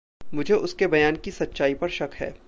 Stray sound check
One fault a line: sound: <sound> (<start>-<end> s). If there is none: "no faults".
no faults